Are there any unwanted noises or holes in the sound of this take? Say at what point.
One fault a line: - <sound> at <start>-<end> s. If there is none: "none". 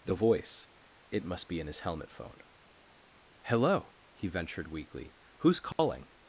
- dropout at 5.7-5.8 s